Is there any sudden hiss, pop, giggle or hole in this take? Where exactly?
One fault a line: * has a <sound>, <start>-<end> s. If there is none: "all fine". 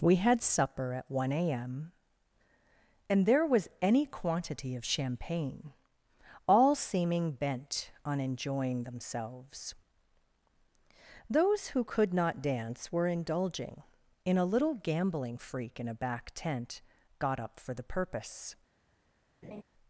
* has a laugh, 19.4-19.6 s